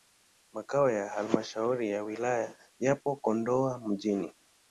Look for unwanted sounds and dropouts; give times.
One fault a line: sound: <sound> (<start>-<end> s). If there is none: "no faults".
no faults